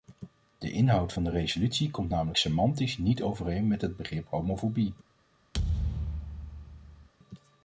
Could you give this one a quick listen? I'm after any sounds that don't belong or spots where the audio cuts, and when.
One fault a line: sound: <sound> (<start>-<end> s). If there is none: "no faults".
sound: thud (5.5-7.1 s)